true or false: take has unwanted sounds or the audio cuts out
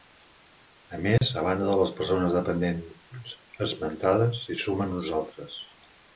true